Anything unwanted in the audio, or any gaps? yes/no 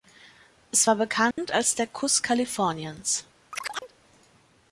yes